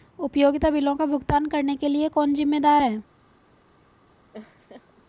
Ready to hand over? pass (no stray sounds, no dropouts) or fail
fail